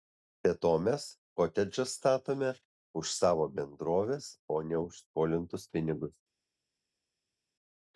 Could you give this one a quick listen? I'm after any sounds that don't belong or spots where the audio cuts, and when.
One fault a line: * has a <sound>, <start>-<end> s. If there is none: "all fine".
all fine